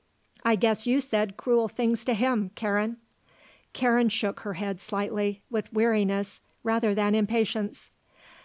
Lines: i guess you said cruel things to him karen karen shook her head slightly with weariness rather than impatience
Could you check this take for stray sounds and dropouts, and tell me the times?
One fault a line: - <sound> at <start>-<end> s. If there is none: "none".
none